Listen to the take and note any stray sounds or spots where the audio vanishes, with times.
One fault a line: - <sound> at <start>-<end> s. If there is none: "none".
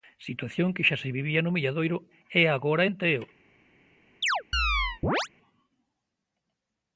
- chirp at 4.2-5.3 s